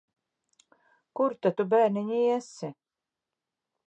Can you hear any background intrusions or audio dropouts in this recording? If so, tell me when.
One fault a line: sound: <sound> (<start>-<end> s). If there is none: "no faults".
no faults